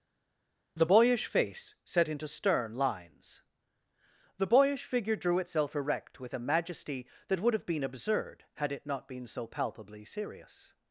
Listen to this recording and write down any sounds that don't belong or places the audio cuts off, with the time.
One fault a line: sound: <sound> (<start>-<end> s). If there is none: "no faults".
no faults